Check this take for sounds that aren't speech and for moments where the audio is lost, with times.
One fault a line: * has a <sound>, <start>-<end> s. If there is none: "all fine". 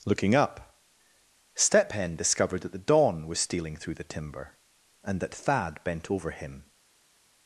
all fine